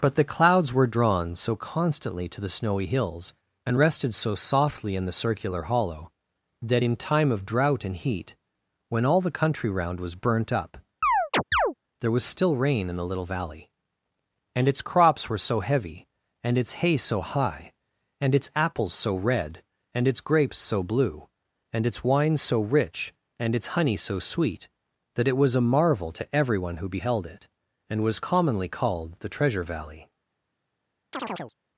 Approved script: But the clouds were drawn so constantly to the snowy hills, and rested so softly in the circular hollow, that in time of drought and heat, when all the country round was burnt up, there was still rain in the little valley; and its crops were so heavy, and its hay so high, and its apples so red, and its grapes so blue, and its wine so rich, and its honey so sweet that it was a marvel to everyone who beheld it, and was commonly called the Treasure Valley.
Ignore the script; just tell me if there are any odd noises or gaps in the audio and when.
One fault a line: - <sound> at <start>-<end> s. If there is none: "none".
- chirp at 11.0-11.7 s
- chirp at 31.1-31.5 s